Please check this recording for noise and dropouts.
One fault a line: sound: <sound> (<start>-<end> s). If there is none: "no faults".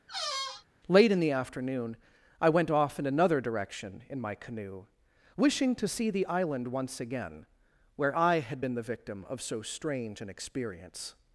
sound: squeak (0.1-0.7 s)